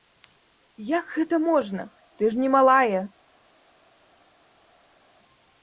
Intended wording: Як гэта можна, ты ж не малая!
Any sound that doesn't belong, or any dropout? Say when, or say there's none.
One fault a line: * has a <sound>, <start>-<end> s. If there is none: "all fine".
all fine